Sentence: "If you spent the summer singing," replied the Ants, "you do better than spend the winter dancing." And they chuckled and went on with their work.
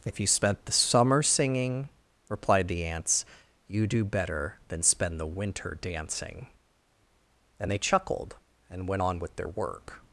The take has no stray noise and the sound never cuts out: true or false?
true